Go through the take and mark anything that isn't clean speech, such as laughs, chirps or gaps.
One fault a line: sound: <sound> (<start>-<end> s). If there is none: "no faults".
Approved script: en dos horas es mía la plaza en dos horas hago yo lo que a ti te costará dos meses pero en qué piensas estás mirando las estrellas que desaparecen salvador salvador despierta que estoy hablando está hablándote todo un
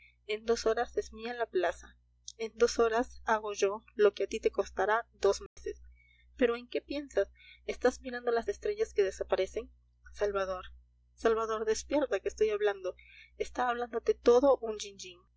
sound: dropout (5.5-5.6 s)